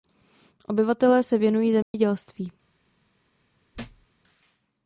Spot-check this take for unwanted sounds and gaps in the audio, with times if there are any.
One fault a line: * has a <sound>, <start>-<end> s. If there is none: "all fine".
* has a dropout, 1.8-1.9 s
* has a thud, 3.7-4.1 s